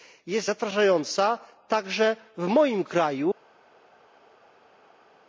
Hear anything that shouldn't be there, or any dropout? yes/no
no